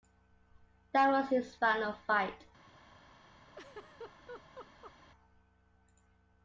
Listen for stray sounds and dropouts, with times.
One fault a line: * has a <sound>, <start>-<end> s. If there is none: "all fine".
* has a laugh, 3.5-4.9 s